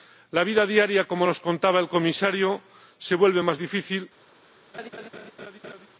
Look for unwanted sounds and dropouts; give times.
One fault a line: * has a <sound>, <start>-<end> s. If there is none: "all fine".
* has a laugh, 4.7-5.9 s